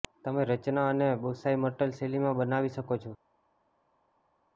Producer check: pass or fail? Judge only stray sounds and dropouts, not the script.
pass